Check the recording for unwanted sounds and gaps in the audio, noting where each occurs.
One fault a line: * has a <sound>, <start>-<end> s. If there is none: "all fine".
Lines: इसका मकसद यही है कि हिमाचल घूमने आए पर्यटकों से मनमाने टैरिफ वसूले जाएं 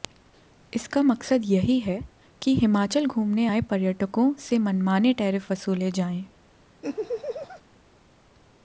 * has a laugh, 6.8-7.6 s